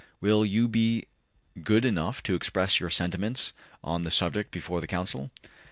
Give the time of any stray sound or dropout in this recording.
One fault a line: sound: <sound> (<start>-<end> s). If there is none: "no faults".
no faults